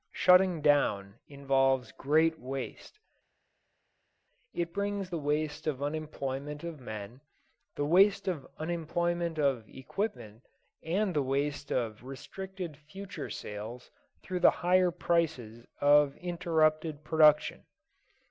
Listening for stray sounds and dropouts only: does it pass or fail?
pass